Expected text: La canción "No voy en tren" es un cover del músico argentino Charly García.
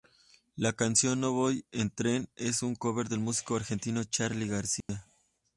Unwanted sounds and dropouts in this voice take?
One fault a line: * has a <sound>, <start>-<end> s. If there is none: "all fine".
* has a dropout, 4.8-4.9 s